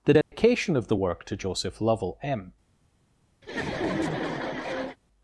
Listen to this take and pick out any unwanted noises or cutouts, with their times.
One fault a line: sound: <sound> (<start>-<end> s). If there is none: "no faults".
sound: dropout (0.2-0.3 s)
sound: laugh (3.4-5.0 s)